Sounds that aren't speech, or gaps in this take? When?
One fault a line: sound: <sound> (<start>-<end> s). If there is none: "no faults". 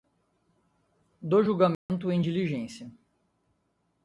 sound: dropout (1.7-1.9 s)